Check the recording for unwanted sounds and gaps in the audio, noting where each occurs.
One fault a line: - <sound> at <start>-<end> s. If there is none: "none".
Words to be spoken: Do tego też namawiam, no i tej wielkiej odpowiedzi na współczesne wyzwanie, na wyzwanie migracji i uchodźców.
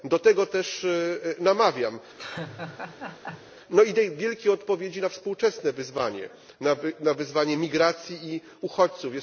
- laugh at 2.2-3.5 s